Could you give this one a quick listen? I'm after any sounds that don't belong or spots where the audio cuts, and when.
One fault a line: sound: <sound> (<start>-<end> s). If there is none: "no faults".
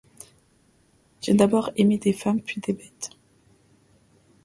no faults